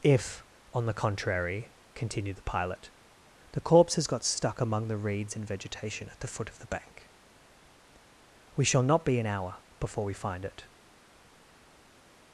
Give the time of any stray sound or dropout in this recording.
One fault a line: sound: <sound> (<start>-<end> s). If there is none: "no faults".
no faults